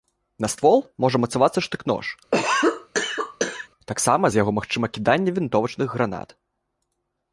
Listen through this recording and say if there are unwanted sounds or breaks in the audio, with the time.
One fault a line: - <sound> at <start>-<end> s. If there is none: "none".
- cough at 2.3-3.7 s